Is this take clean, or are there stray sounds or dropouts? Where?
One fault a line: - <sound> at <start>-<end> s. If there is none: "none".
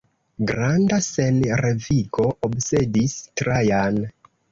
none